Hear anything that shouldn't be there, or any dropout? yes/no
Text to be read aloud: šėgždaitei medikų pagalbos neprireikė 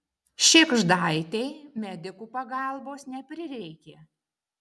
no